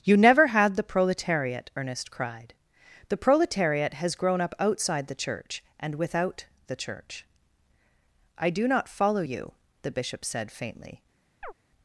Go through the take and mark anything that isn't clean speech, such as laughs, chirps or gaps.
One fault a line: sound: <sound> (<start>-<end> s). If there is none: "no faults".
sound: chirp (11.4-11.5 s)